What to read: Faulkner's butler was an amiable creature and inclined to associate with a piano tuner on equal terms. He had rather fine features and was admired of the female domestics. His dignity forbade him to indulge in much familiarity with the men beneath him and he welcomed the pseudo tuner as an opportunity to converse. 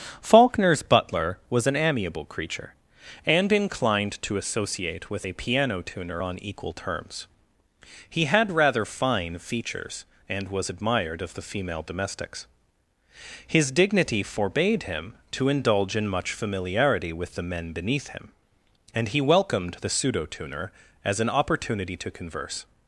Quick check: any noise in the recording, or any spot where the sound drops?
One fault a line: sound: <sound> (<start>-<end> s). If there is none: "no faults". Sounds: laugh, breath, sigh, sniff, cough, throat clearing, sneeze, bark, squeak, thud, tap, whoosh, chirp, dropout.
no faults